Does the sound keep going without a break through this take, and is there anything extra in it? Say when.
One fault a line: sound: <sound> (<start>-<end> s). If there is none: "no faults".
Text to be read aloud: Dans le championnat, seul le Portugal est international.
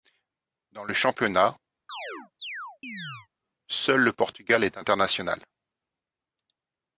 sound: chirp (1.9-3.3 s)